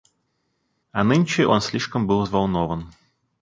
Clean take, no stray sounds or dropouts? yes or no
yes